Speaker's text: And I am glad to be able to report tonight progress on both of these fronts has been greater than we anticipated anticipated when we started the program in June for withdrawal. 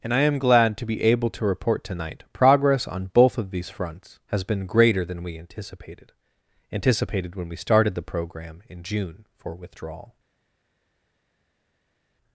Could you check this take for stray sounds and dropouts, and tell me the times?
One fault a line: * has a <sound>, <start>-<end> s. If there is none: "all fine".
all fine